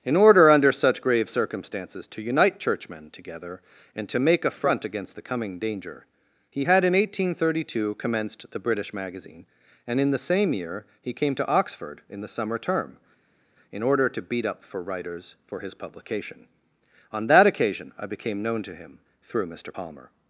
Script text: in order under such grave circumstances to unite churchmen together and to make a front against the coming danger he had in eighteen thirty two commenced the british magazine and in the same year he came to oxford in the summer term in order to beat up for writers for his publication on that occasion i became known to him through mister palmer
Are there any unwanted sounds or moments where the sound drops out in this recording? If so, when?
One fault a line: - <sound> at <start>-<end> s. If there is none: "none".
none